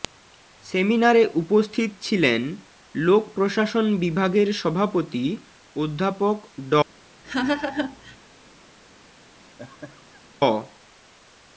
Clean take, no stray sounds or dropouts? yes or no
no